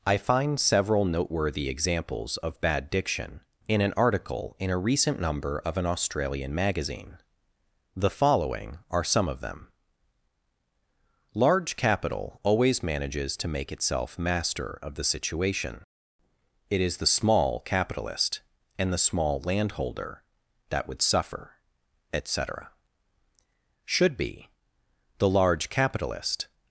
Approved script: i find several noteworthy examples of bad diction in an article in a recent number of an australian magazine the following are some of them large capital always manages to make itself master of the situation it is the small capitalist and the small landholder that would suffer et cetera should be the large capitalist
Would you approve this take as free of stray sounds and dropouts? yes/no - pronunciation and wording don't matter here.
yes